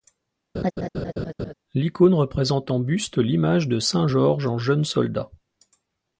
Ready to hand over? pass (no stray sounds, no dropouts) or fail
fail